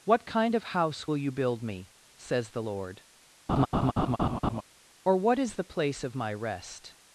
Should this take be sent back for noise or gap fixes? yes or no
yes